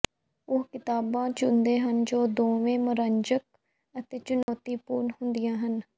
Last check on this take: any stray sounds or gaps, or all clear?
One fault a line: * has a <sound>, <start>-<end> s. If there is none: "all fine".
* has a dropout, 4.4-4.5 s